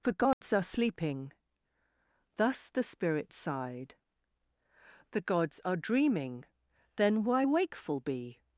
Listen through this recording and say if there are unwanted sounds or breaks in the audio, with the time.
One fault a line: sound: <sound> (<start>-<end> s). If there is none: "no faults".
sound: dropout (0.3-0.4 s)